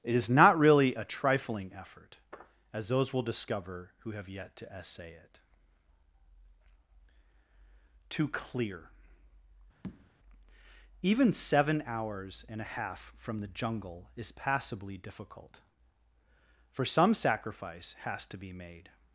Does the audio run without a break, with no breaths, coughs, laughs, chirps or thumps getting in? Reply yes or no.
no